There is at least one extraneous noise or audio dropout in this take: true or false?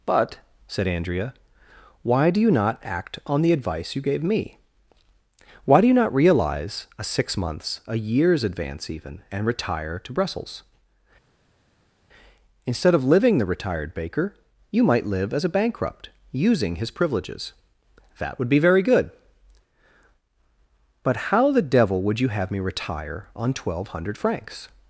false